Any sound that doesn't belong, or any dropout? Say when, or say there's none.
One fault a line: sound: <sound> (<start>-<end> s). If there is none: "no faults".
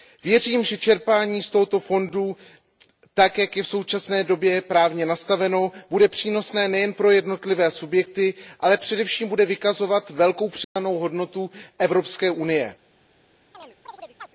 sound: dropout (10.6-10.8 s)
sound: chirp (13.5-14.3 s)